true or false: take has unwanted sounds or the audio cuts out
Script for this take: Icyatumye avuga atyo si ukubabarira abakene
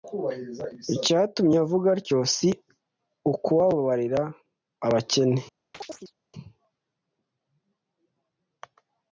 true